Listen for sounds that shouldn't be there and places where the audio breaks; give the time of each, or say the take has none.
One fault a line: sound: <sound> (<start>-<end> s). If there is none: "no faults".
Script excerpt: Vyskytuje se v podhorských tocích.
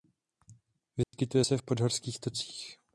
sound: dropout (1.0-1.1 s)